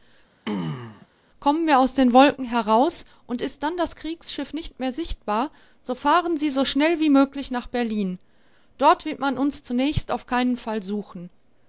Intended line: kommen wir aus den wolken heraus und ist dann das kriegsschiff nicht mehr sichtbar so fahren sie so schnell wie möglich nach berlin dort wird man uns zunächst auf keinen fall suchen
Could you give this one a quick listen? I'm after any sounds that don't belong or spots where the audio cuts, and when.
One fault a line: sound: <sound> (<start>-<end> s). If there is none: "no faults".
sound: throat clearing (0.4-1.1 s)